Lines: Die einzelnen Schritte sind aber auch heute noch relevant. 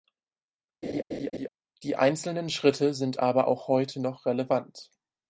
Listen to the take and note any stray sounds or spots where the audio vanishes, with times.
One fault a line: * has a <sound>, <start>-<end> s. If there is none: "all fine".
* has a laugh, 0.8-1.5 s